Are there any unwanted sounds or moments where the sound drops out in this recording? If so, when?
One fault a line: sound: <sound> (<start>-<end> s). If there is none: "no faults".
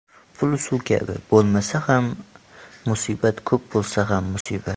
sound: dropout (4.4-4.5 s)